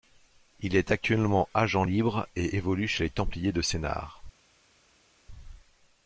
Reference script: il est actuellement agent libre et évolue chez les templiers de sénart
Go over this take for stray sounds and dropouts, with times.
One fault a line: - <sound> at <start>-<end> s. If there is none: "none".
none